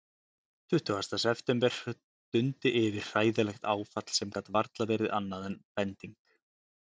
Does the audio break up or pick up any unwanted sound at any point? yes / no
no